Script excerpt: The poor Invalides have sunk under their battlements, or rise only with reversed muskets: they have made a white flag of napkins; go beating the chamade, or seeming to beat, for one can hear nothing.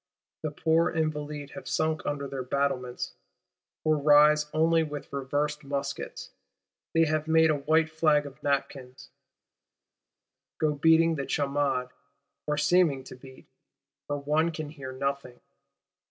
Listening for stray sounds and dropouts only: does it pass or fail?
pass